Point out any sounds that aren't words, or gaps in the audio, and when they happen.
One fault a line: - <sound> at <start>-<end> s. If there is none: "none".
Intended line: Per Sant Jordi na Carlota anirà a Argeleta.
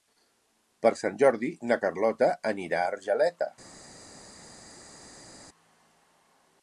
none